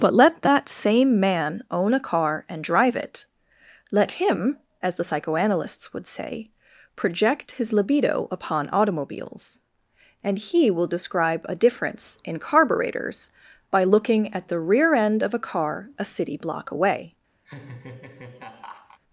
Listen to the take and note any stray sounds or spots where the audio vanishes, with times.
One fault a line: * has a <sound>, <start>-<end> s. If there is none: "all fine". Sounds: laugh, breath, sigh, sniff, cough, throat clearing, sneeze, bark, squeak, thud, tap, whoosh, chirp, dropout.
* has a laugh, 17.4-19.0 s